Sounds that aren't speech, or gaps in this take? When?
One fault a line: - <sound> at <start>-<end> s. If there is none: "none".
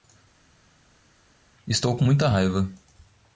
none